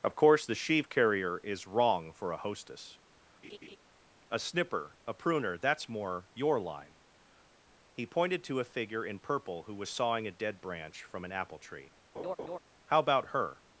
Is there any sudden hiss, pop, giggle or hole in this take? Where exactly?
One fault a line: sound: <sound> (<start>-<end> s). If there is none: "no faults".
sound: laugh (3.4-3.8 s)
sound: laugh (12.1-12.6 s)